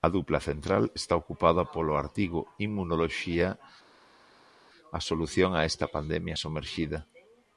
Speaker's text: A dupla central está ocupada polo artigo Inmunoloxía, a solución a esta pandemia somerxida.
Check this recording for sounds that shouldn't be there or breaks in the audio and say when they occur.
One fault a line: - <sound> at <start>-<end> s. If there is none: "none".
none